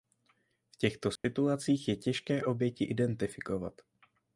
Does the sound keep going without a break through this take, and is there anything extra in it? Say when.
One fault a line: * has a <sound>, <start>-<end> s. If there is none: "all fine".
* has a dropout, 1.2-1.2 s